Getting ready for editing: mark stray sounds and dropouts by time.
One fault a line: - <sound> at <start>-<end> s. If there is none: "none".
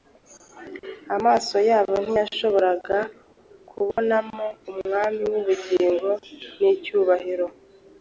- dropout at 3.9-4.0 s